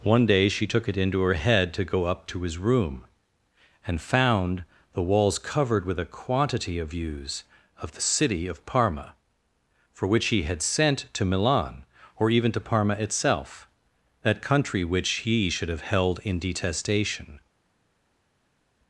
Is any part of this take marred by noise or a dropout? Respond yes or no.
no